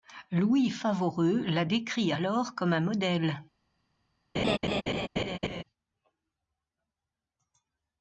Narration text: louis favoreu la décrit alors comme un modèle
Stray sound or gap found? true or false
true